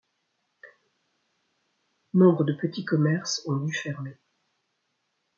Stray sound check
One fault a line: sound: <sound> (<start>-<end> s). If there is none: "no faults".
no faults